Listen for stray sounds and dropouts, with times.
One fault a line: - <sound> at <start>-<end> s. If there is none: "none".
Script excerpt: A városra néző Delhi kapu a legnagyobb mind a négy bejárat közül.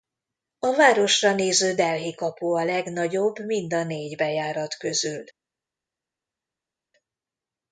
none